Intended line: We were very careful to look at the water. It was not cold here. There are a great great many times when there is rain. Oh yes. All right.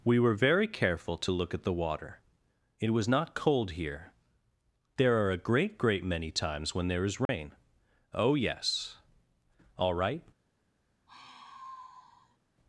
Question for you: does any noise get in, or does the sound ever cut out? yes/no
yes